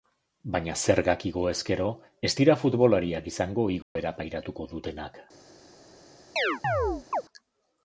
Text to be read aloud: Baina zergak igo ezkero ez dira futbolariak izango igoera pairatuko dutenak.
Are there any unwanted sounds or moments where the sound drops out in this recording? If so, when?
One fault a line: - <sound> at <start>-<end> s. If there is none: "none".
- dropout at 3.8-4.0 s
- chirp at 6.4-7.2 s